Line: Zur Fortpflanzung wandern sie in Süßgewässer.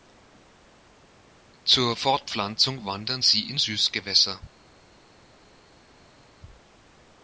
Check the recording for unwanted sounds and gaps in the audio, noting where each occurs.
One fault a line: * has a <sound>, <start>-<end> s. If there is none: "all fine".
all fine